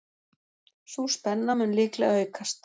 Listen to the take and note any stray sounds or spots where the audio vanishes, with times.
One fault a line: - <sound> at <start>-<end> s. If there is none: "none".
none